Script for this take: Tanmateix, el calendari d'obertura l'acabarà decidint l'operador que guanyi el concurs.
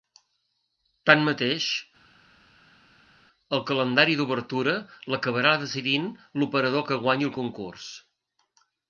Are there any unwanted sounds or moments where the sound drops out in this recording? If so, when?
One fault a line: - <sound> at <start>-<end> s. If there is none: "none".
none